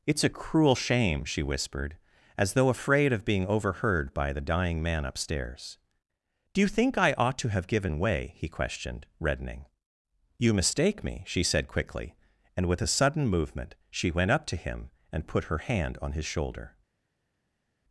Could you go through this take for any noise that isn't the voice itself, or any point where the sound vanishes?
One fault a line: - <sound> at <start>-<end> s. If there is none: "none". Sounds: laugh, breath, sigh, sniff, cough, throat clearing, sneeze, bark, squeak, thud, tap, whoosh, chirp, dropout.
none